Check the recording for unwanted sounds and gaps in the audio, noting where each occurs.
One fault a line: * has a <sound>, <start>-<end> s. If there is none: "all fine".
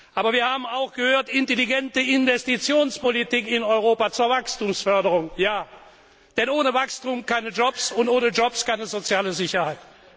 all fine